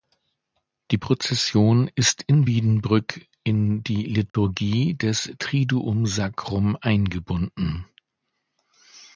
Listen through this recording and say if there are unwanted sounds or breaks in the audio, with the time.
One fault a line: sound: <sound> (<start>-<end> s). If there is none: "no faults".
sound: dropout (4.3-4.3 s)